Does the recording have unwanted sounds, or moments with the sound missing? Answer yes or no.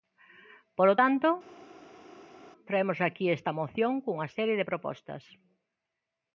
no